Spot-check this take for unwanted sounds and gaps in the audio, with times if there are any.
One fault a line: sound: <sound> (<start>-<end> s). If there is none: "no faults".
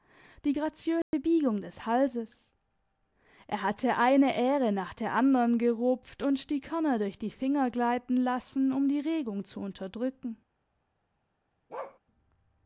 sound: dropout (1.0-1.1 s)
sound: bark (11.7-12.0 s)